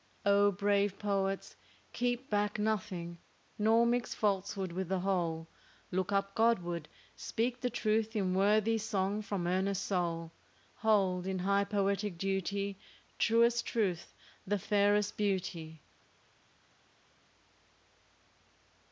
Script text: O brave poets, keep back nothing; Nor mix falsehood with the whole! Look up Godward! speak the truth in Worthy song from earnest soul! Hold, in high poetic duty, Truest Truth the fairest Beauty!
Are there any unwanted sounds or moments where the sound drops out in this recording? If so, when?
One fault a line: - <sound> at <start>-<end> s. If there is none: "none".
none